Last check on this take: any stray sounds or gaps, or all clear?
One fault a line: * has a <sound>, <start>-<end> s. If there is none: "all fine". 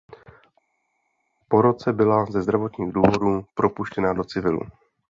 all fine